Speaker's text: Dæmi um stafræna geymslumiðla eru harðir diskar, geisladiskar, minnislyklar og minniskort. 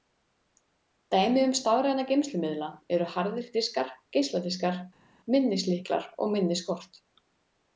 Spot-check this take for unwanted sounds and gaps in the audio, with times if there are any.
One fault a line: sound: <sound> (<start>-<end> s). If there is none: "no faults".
no faults